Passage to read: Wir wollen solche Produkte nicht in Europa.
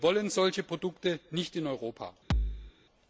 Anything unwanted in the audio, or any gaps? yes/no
yes